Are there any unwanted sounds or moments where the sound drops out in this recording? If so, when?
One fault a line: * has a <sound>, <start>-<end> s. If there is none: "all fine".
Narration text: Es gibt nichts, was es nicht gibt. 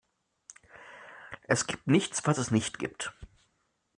all fine